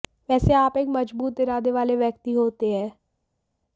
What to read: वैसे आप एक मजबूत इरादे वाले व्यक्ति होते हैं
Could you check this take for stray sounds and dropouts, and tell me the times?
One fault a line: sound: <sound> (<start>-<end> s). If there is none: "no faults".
no faults